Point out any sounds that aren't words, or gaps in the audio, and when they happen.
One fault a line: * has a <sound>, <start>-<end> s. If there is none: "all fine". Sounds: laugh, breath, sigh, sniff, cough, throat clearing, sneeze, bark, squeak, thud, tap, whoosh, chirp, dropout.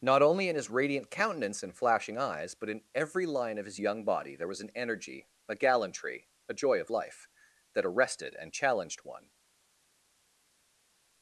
all fine